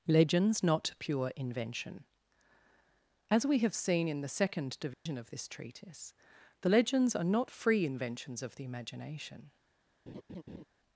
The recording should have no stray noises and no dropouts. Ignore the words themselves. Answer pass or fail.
fail